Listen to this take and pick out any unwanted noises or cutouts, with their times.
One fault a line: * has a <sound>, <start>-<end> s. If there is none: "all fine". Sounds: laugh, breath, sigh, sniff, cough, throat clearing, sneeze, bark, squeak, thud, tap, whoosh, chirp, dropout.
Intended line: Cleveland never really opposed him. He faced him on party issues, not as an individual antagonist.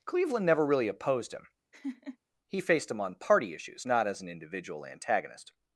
* has a laugh, 1.7-2.2 s